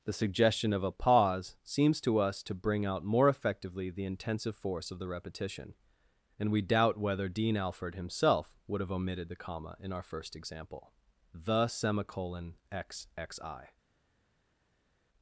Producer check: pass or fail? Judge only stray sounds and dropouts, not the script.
pass